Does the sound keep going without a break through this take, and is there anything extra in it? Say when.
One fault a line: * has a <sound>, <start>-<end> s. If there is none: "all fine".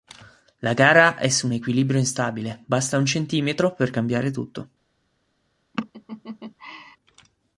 * has a laugh, 5.7-7.0 s